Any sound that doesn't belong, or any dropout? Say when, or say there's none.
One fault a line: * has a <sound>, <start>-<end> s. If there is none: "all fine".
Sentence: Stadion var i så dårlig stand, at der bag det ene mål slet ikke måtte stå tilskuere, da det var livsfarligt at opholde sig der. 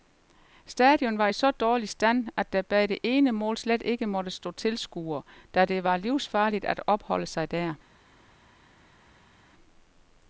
all fine